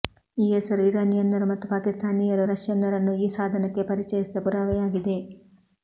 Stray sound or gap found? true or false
false